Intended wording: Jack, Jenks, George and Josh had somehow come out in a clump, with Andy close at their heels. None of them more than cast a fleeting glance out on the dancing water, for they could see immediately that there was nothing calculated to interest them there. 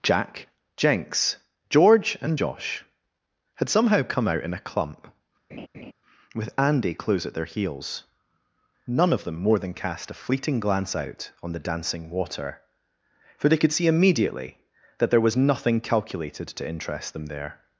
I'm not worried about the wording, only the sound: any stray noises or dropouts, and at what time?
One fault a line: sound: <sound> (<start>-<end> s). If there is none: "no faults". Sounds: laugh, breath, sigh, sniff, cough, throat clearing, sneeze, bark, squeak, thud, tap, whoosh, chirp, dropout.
sound: laugh (5.5-5.9 s)